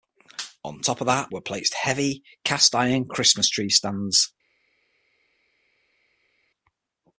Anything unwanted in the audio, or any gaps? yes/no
no